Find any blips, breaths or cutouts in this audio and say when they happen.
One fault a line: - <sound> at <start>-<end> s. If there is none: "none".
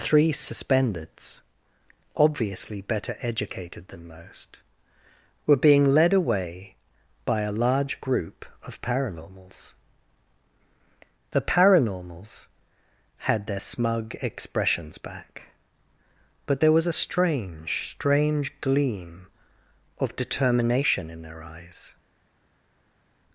none